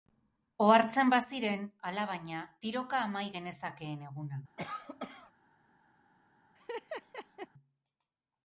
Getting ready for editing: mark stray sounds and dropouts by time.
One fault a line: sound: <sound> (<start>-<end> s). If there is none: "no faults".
sound: cough (4.6-5.3 s)
sound: laugh (6.5-7.5 s)